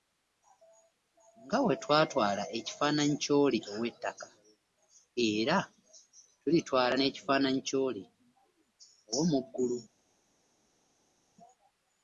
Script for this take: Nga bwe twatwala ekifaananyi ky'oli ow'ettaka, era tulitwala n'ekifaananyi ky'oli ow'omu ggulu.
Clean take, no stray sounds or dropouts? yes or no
yes